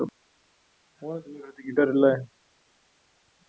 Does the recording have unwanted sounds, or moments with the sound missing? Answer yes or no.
no